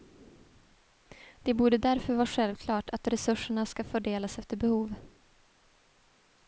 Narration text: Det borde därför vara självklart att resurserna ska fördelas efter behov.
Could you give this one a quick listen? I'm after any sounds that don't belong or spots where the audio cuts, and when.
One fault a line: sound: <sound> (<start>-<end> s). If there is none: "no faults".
no faults